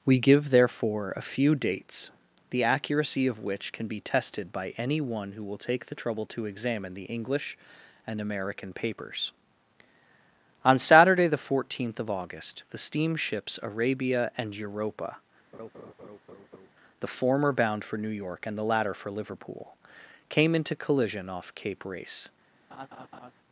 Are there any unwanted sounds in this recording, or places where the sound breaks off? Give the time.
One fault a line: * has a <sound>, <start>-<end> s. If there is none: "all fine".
* has a laugh, 15.5-16.7 s
* has a laugh, 22.7-23.3 s